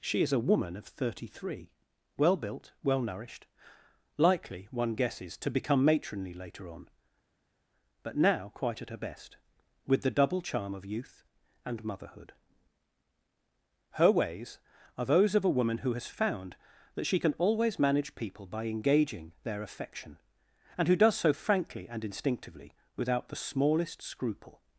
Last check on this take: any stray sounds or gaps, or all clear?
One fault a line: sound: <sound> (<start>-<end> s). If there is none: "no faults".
no faults